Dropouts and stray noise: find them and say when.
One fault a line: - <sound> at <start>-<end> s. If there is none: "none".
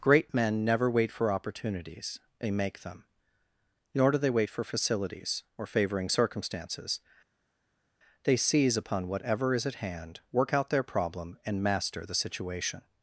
none